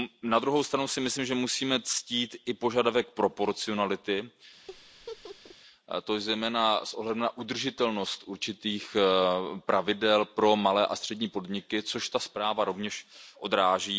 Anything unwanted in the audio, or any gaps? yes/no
yes